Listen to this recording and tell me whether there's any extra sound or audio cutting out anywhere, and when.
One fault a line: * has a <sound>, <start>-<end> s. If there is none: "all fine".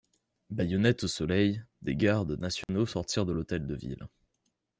* has a dropout, 2.6-2.7 s